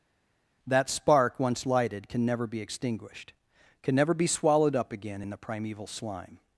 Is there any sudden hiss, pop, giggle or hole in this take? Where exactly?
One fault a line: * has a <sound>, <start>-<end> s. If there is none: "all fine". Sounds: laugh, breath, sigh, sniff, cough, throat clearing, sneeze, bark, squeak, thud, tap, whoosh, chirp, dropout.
all fine